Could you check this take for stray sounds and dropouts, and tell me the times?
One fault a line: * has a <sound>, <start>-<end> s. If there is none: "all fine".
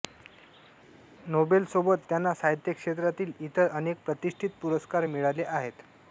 all fine